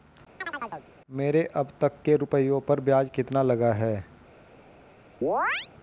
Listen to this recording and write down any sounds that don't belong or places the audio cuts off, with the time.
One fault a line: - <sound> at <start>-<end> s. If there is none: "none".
- chirp at 0.4-0.9 s
- chirp at 5.2-5.7 s